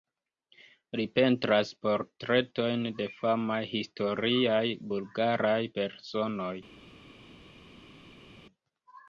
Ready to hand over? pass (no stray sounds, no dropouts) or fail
pass